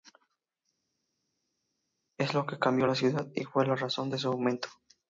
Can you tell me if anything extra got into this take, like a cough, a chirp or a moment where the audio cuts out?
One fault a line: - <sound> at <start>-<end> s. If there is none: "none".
none